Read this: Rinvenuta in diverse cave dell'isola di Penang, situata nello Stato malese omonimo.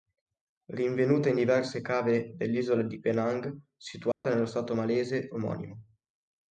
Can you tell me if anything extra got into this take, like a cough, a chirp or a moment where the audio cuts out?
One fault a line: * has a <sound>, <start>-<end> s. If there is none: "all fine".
* has a dropout, 4.1-4.2 s